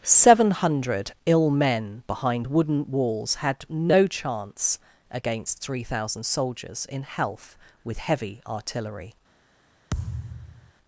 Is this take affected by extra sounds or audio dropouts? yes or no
yes